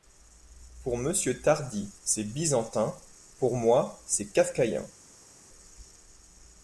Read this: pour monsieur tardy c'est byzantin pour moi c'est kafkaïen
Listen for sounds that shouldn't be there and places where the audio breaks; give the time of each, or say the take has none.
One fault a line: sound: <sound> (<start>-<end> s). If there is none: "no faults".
no faults